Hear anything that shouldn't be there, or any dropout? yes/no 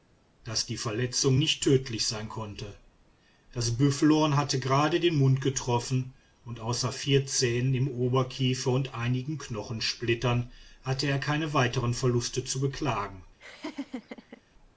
yes